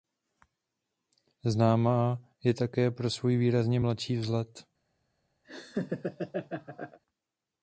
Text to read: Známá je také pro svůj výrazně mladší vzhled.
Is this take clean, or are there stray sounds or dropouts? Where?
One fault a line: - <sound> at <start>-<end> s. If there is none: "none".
- laugh at 5.4-7.0 s